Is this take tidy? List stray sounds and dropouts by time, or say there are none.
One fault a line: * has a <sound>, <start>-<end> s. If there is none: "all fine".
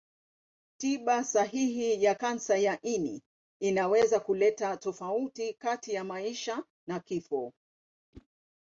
* has a whoosh, 8.1-8.3 s